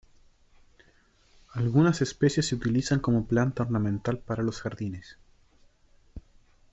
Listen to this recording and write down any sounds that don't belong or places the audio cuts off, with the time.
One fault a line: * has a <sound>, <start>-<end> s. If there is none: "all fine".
all fine